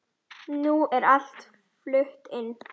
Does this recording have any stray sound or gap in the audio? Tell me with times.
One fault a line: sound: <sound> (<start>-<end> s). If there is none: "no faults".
no faults